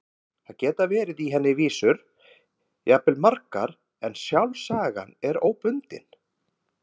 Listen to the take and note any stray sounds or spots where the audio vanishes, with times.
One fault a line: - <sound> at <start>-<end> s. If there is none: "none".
none